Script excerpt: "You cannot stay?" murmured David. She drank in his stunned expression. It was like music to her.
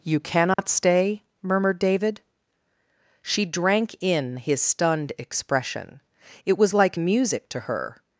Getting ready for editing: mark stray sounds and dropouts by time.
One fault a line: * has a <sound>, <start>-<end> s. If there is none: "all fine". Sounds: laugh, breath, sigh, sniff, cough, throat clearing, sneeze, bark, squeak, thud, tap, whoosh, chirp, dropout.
* has a dropout, 0.5-0.6 s